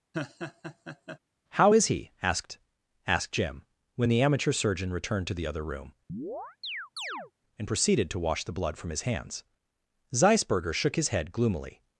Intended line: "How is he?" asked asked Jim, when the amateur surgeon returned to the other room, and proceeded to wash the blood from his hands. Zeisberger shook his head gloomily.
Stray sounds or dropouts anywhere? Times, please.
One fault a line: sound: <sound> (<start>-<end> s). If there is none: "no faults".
sound: laugh (0.1-1.2 s)
sound: chirp (6.1-7.3 s)